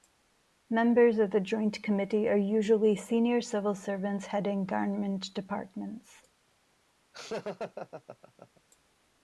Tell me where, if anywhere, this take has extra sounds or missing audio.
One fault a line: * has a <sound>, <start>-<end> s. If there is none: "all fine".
* has a laugh, 7.1-8.6 s